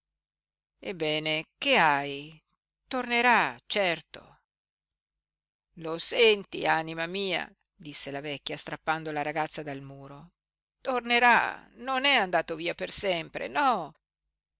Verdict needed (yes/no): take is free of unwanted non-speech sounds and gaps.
yes